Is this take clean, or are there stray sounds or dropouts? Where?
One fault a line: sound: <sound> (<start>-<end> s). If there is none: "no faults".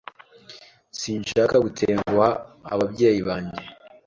no faults